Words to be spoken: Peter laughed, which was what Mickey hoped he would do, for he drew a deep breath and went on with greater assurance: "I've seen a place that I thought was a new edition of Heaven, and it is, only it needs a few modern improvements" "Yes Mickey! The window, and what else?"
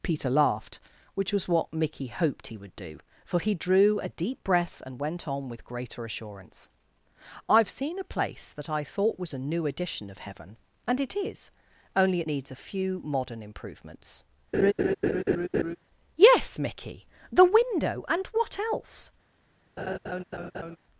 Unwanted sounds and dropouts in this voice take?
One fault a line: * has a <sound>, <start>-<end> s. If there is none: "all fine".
* has a laugh, 14.5-15.8 s
* has a laugh, 19.8-20.8 s